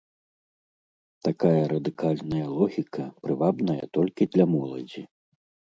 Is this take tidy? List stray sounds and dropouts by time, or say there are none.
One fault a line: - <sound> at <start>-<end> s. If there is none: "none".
none